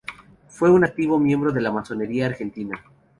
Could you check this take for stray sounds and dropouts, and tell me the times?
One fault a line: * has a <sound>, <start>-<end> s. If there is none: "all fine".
all fine